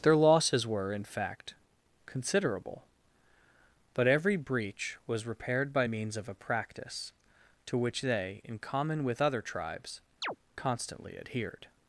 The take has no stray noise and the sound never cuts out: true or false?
false